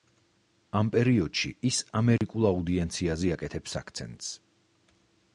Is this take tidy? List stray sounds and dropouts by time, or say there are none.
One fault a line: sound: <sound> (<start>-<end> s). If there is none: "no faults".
sound: dropout (2.2-2.2 s)